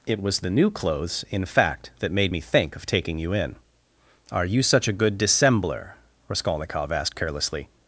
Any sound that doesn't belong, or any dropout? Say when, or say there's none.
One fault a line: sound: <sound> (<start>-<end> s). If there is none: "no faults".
no faults